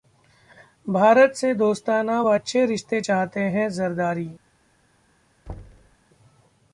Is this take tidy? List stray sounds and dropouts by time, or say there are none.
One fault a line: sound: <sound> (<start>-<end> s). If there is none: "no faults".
sound: thud (5.5-6.0 s)